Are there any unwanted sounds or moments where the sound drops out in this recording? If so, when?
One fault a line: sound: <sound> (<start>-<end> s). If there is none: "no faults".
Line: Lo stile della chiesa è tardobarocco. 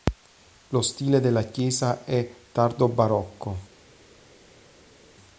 no faults